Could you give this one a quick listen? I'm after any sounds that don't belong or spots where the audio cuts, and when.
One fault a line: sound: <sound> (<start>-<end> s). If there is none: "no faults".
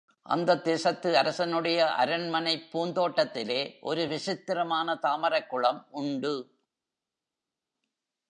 no faults